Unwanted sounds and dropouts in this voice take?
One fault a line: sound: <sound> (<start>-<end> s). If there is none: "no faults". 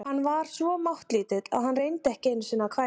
no faults